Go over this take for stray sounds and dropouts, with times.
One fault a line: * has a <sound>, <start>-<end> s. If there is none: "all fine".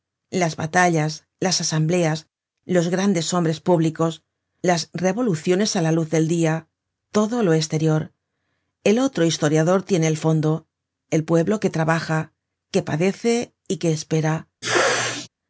* has a sneeze, 14.6-15.3 s